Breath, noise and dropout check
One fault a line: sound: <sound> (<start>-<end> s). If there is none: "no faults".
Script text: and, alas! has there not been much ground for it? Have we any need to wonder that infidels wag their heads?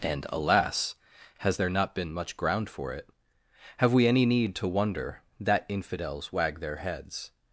no faults